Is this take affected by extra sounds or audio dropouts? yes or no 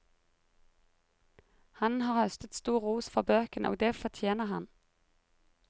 no